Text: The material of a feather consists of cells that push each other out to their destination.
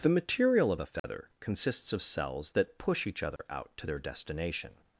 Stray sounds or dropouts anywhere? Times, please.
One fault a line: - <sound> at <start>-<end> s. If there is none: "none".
- dropout at 1.0-1.0 s
- dropout at 3.4-3.4 s